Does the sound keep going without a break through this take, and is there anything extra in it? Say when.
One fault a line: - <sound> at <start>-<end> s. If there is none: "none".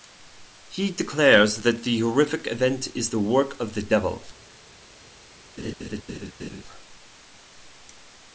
- laugh at 5.6-6.6 s